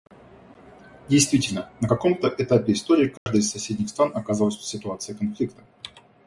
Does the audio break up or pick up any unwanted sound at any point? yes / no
yes